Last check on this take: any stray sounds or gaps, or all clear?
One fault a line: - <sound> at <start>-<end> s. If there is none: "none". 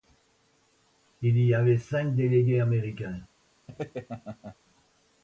- laugh at 3.7-4.6 s